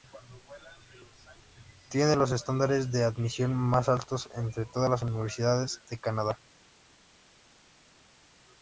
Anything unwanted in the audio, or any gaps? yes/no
no